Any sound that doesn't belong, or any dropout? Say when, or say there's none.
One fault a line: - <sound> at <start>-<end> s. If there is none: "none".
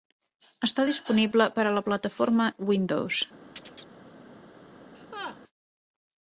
- chirp at 3.6-3.9 s
- laugh at 4.9-5.4 s